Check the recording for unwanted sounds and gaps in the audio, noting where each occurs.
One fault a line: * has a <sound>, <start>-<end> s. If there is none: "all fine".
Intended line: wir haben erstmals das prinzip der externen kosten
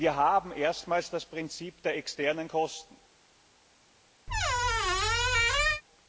* has a squeak, 4.3-5.8 s